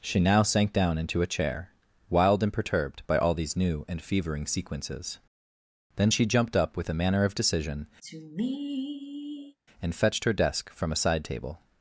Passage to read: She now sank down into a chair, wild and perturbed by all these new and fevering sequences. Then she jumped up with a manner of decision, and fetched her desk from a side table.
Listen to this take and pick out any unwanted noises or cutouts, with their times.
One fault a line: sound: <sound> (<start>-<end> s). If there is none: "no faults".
sound: sigh (8.0-9.6 s)